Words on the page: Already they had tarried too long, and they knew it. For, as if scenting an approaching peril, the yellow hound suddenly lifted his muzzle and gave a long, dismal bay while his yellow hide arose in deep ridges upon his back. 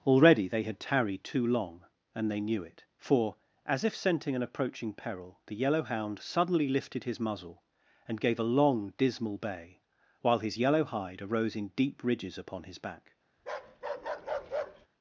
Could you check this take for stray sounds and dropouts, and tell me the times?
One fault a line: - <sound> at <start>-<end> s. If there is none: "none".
- bark at 13.4-14.9 s